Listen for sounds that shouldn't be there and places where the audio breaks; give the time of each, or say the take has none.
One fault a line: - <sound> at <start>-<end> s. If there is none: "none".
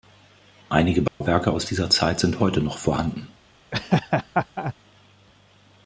- dropout at 1.1-1.2 s
- laugh at 3.7-4.7 s